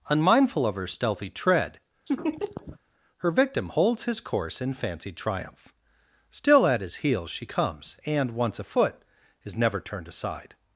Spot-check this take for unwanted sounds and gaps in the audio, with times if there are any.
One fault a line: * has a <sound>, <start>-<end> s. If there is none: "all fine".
* has a laugh, 2.1-2.8 s